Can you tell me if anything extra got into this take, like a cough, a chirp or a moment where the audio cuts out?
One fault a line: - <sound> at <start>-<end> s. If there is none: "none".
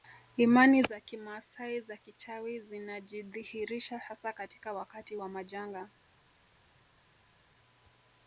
none